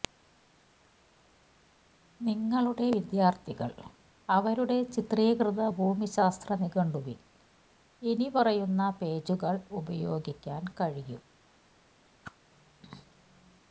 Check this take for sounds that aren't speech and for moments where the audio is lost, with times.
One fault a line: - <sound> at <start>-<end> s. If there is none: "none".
- whoosh at 12.2-12.4 s